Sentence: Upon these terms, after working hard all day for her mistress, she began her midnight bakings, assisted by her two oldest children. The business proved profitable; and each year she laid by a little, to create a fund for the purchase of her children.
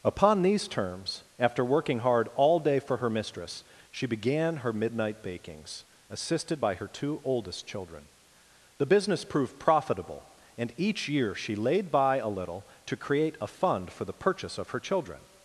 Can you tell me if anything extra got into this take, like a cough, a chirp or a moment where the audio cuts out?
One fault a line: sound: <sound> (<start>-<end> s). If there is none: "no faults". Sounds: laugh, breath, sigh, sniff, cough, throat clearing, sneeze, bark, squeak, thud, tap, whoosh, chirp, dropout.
no faults